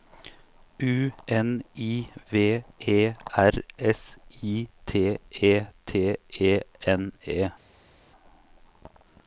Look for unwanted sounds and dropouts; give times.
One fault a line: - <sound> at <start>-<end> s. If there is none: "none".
none